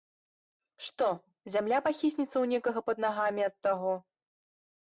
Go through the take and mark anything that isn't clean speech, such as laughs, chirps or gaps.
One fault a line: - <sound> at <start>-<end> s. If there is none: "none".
none